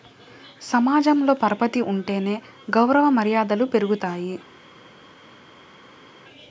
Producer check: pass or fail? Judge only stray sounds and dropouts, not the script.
pass